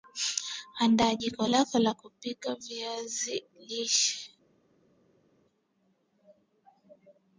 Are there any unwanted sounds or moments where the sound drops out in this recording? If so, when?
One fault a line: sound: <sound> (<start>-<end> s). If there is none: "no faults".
no faults